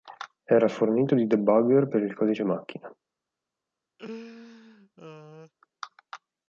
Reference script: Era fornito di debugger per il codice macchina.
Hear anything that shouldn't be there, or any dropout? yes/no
yes